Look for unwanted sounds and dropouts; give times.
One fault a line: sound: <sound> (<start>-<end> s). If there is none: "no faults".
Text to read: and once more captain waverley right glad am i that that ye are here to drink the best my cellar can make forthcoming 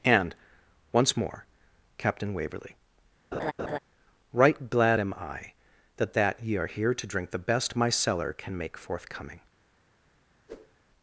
sound: laugh (3.3-3.8 s)
sound: whoosh (10.5-10.8 s)